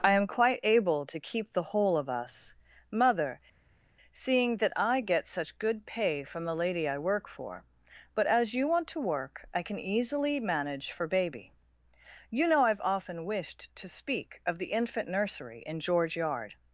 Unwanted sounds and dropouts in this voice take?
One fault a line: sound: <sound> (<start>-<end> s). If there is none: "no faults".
no faults